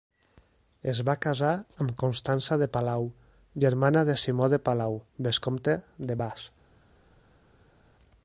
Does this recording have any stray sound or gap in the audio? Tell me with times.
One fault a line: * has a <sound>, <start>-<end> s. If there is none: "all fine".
all fine